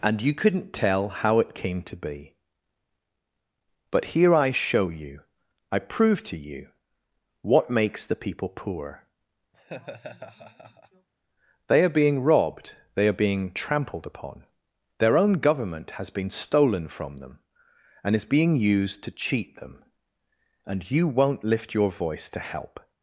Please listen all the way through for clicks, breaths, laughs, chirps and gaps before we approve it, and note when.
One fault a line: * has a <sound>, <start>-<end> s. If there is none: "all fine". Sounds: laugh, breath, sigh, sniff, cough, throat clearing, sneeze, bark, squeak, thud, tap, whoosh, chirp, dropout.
* has a laugh, 9.5-11.1 s